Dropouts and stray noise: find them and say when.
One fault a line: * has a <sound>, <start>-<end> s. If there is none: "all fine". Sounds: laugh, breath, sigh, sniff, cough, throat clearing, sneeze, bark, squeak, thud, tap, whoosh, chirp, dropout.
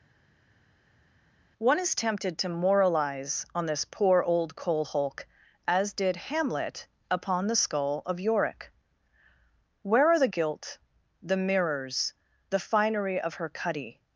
all fine